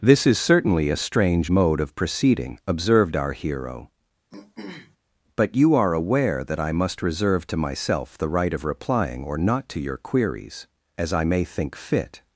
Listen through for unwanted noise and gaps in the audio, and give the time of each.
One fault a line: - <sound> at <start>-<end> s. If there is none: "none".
- throat clearing at 4.3-5.0 s